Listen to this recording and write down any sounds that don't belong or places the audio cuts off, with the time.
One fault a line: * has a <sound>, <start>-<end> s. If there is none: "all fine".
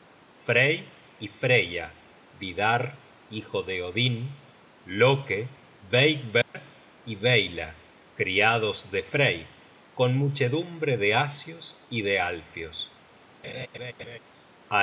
* has a dropout, 6.4-6.5 s
* has a laugh, 13.4-14.2 s